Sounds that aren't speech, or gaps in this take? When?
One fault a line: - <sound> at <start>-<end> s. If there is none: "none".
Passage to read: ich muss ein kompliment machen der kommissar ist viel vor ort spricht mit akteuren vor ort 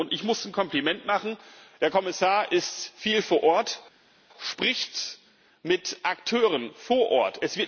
none